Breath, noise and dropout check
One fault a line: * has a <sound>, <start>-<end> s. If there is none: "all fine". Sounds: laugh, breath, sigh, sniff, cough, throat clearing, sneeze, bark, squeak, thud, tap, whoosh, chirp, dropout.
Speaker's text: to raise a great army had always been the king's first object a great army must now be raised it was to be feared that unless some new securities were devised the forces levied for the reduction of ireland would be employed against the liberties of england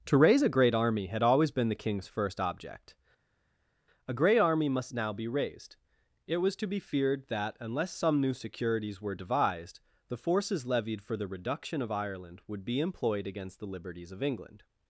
all fine